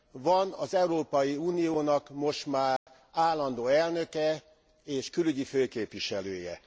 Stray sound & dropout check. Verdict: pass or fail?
fail